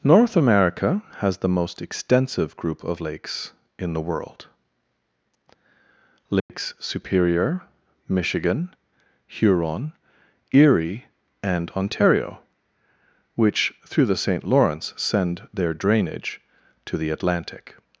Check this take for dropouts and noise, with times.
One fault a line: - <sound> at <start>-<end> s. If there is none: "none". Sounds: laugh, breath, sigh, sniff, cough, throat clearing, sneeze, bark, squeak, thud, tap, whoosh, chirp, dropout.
- dropout at 6.4-6.5 s